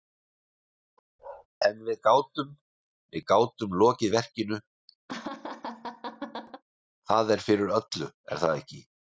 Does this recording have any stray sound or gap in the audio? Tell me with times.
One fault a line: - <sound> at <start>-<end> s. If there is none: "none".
- bark at 1.2-1.5 s
- laugh at 5.1-6.6 s